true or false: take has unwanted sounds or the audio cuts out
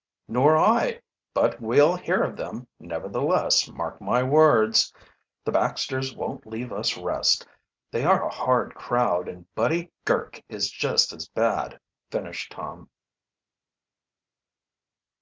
false